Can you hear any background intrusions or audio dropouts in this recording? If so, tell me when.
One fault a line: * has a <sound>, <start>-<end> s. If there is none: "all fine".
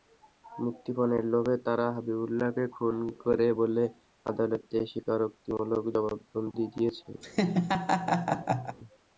* has a laugh, 7.2-8.8 s